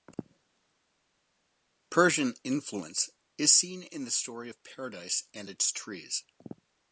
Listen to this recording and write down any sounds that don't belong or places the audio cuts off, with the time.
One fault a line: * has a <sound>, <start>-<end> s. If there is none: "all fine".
all fine